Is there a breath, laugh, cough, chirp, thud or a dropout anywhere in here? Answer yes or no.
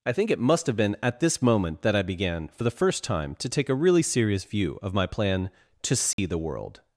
yes